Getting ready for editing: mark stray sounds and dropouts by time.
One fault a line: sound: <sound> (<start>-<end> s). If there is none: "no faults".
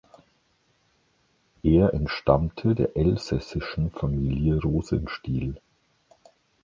no faults